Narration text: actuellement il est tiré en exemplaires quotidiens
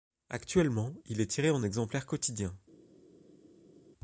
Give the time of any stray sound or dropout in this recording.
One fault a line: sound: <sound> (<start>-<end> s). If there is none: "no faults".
no faults